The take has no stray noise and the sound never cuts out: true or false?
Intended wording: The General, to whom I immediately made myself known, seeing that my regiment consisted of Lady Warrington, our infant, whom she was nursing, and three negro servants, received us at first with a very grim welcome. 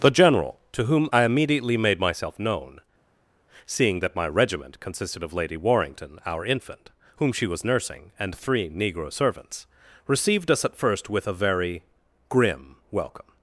true